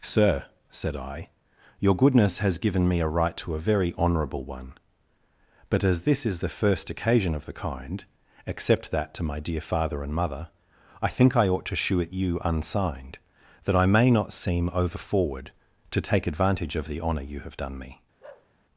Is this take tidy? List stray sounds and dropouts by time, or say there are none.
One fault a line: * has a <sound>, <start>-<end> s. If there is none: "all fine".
* has a bark, 18.2-18.5 s